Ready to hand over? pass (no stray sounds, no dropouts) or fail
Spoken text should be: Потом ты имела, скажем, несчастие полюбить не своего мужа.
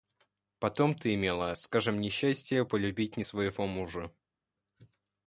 pass